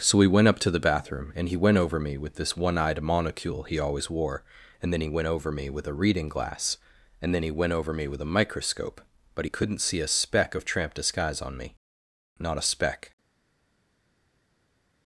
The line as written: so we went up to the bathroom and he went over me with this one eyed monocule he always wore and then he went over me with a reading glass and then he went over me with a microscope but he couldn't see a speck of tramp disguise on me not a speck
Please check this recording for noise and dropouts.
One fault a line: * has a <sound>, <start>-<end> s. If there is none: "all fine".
all fine